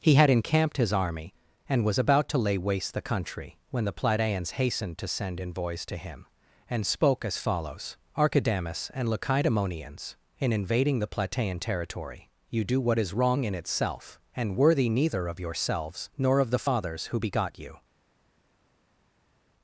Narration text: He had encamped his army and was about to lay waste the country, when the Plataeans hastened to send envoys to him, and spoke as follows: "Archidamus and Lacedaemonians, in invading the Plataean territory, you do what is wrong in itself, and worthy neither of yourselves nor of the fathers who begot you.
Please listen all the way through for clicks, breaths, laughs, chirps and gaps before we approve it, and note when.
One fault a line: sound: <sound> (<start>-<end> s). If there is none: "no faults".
no faults